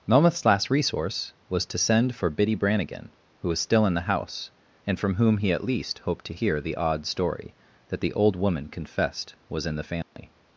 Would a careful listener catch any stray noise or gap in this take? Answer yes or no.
yes